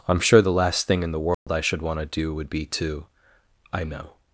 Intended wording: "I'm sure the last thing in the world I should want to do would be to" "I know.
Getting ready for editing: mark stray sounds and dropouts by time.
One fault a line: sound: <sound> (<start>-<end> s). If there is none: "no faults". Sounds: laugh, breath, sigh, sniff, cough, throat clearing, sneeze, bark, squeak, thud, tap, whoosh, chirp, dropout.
sound: dropout (1.3-1.5 s)